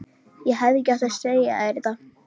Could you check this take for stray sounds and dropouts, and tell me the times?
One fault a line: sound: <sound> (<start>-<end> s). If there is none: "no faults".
no faults